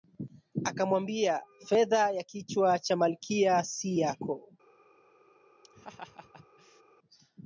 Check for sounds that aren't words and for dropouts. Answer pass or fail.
fail